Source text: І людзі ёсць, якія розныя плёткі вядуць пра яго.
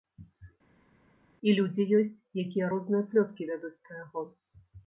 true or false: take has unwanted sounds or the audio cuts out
false